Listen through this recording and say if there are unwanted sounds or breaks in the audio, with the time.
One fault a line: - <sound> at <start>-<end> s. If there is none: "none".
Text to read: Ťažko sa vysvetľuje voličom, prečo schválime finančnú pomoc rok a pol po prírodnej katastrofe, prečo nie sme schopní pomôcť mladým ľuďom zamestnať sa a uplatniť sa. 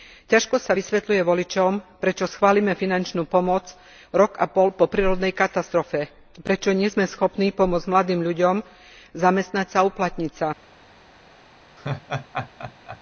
- laugh at 11.8-13.0 s